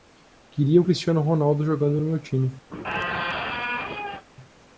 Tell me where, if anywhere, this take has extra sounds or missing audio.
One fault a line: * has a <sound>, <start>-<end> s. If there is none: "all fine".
* has a squeak, 2.7-4.2 s